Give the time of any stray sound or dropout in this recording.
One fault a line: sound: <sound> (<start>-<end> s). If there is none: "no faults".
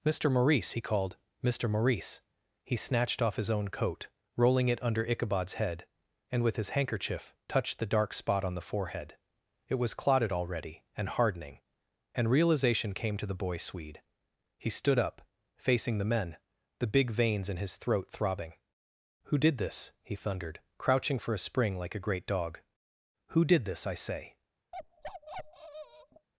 sound: bark (24.7-26.3 s)